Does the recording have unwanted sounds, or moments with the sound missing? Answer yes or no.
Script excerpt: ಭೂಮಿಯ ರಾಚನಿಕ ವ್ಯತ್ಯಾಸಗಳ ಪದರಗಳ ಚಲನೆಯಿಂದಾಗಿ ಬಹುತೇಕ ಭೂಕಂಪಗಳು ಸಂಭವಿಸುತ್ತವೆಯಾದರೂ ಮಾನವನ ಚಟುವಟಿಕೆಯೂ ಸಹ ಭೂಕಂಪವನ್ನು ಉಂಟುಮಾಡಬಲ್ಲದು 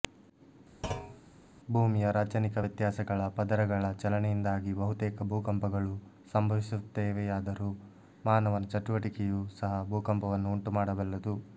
yes